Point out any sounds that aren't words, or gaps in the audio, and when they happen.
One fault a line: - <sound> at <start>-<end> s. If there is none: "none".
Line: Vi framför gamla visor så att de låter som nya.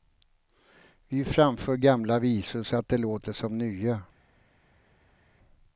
none